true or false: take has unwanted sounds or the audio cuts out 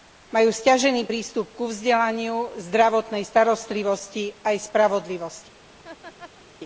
true